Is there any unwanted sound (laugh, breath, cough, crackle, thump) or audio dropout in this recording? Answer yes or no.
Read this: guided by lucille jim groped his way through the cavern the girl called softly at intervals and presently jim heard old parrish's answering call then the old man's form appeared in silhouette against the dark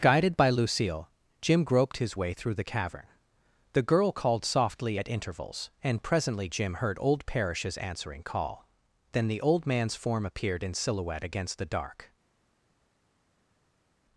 no